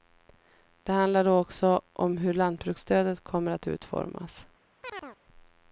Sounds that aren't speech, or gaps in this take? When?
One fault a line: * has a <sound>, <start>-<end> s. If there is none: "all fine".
* has a chirp, 4.8-5.2 s